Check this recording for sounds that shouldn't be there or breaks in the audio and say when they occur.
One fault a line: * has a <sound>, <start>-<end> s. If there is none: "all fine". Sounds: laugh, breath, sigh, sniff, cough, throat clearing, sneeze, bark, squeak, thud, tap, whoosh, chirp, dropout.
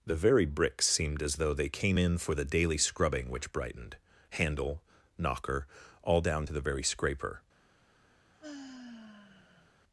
* has a sigh, 8.3-9.7 s